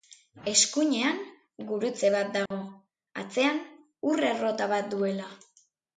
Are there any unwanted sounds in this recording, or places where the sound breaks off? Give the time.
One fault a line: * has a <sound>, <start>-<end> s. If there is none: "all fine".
* has a dropout, 2.5-2.5 s